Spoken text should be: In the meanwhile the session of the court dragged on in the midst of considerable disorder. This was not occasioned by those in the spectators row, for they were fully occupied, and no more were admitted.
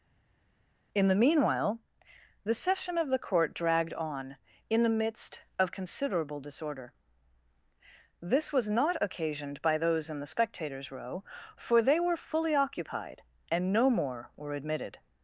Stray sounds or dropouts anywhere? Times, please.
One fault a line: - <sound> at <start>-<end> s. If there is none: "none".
none